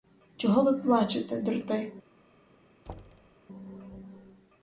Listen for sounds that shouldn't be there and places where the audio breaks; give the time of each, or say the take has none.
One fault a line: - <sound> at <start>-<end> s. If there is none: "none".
- thud at 2.9-3.4 s